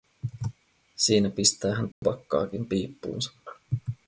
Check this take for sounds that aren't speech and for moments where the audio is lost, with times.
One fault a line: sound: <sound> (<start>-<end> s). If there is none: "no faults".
sound: dropout (1.9-2.0 s)